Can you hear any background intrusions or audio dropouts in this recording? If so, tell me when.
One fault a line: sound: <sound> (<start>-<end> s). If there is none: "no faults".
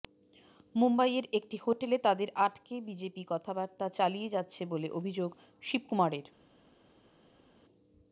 no faults